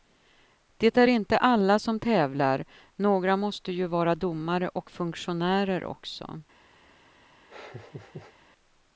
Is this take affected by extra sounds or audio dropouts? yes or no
yes